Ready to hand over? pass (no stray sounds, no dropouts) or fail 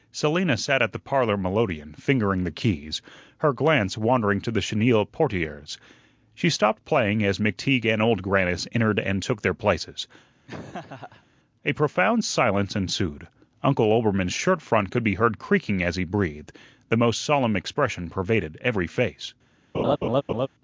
fail